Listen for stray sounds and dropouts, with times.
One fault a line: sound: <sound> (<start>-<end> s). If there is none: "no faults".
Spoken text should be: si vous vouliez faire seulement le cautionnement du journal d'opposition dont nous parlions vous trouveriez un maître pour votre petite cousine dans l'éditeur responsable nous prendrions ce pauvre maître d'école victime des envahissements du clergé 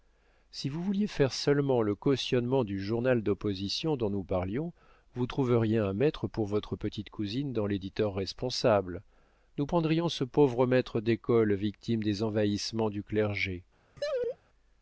sound: laugh (14.0-14.4 s)